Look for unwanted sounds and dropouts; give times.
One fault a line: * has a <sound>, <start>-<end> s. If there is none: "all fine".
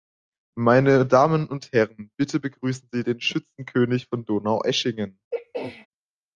* has a throat clearing, 5.3-5.9 s